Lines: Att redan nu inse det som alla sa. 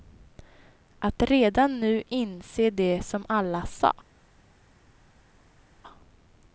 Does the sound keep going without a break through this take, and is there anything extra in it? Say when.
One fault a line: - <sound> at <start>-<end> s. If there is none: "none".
none